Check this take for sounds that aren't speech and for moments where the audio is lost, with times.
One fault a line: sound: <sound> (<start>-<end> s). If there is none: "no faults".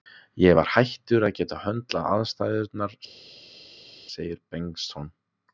no faults